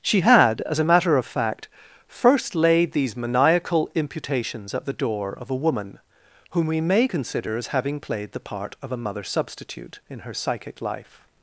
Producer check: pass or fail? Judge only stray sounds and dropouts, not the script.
pass